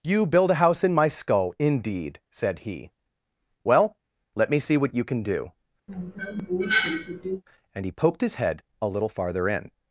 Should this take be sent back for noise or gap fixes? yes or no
yes